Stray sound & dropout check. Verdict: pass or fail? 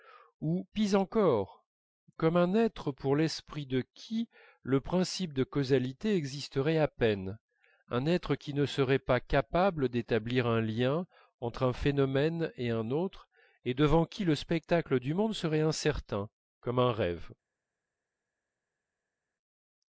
pass